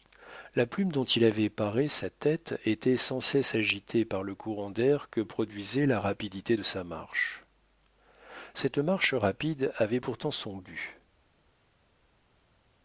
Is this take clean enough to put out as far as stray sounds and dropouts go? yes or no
yes